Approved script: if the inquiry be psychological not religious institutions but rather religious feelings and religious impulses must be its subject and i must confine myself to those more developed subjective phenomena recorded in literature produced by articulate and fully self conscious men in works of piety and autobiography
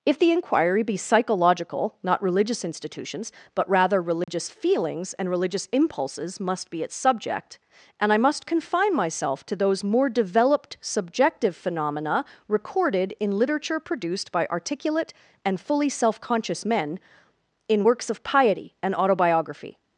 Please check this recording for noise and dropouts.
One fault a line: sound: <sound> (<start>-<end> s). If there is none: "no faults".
sound: dropout (4.2-4.3 s)